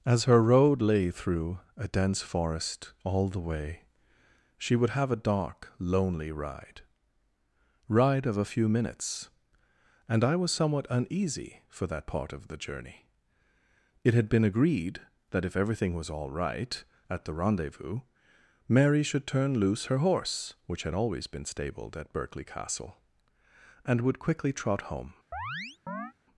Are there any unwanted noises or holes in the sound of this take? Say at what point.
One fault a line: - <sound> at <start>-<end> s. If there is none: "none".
- chirp at 25.3-26.1 s